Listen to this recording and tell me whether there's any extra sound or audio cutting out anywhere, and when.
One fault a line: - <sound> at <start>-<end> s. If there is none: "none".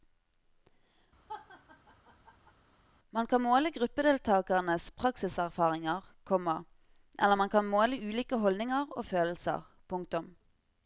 - laugh at 1.3-2.5 s